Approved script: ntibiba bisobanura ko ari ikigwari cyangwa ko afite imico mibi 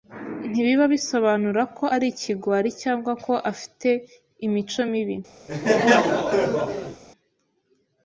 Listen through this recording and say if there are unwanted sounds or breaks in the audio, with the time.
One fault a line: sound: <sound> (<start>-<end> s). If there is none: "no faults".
sound: laugh (5.5-7.0 s)